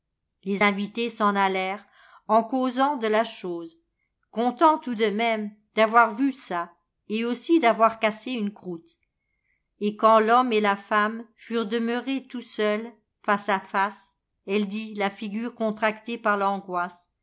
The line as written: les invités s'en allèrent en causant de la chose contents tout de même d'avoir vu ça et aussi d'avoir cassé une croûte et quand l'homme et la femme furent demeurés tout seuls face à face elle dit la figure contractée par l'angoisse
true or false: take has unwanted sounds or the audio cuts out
false